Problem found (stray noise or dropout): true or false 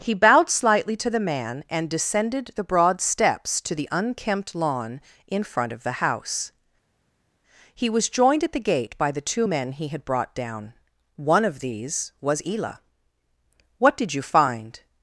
false